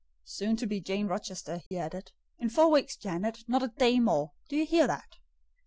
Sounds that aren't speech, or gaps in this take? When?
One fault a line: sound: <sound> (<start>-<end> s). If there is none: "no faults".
sound: dropout (1.7-1.7 s)